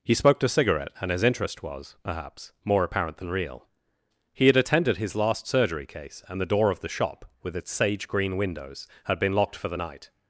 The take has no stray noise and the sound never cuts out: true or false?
true